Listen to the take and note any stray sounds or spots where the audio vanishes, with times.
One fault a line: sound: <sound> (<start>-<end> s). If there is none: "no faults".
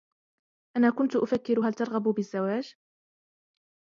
no faults